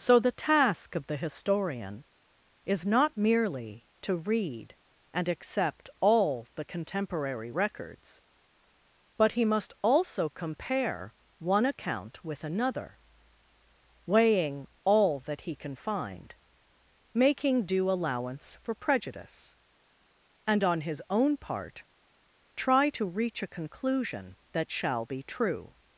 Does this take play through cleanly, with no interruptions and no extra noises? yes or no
yes